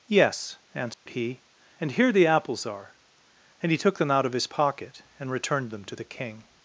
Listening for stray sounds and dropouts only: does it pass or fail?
fail